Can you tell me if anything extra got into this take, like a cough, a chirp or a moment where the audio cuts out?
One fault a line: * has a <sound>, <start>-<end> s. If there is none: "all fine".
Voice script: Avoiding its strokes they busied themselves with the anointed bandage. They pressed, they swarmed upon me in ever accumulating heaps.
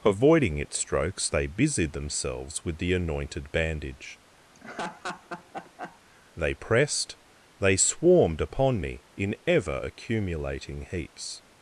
* has a laugh, 4.5-6.0 s